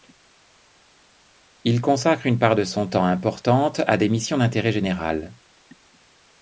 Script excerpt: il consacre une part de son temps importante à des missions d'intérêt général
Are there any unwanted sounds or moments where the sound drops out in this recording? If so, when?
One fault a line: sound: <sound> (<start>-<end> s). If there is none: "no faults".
no faults